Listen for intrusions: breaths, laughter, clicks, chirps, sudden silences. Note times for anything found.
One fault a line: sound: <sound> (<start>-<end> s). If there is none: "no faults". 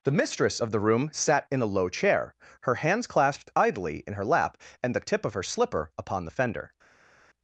no faults